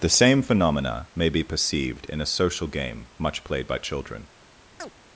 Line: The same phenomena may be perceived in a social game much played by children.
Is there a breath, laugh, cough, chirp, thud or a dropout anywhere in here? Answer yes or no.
yes